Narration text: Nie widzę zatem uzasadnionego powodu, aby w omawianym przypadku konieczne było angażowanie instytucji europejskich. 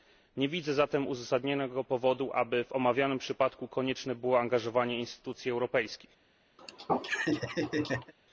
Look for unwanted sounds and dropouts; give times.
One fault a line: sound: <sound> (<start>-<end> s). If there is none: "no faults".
sound: laugh (6.6-8.1 s)